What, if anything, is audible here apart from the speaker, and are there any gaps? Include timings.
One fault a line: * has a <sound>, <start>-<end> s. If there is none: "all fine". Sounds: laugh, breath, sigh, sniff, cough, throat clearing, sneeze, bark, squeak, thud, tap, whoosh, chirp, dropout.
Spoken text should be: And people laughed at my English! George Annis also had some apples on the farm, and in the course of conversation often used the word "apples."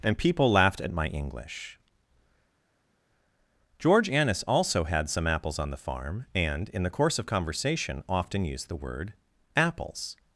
all fine